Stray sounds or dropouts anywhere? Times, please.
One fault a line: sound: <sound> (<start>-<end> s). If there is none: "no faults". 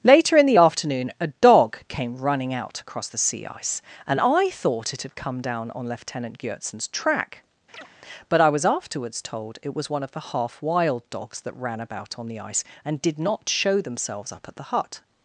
sound: chirp (7.7-7.9 s)